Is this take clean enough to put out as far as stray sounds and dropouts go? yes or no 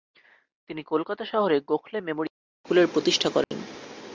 no